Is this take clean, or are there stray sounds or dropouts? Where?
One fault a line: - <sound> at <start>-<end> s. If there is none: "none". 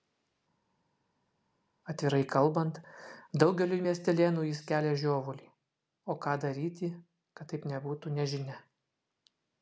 none